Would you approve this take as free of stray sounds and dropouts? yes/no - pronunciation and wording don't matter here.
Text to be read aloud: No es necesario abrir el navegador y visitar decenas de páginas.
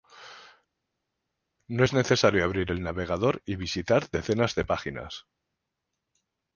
yes